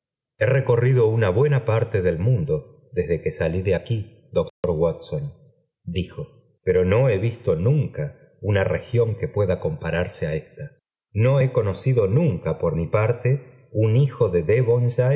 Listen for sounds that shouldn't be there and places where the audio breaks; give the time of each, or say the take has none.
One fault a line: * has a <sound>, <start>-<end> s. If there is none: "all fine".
* has a dropout, 4.5-4.6 s